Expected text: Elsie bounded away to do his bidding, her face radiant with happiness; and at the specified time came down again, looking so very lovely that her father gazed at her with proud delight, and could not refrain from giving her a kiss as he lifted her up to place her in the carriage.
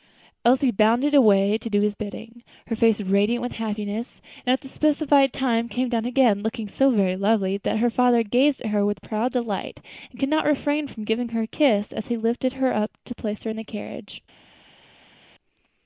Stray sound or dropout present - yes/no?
no